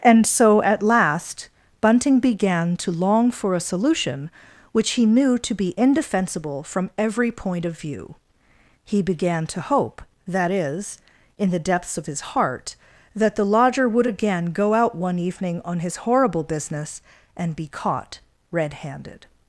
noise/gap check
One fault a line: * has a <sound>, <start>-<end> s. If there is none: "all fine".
all fine